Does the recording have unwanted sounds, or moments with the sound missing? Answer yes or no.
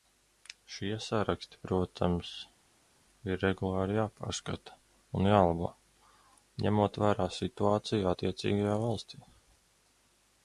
no